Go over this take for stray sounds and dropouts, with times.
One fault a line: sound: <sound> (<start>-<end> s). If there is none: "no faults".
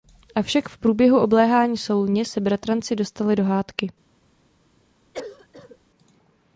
sound: cough (5.1-5.8 s)